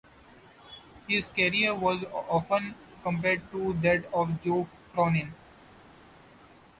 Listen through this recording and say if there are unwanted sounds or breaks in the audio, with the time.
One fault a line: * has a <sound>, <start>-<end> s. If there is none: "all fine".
all fine